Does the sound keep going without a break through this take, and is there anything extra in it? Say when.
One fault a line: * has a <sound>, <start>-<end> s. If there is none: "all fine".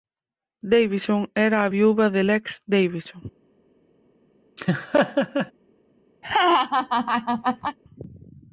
* has a laugh, 4.6-5.5 s
* has a laugh, 6.2-7.8 s